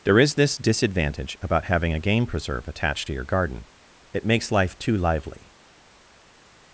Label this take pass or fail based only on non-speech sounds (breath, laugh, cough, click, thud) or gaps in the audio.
pass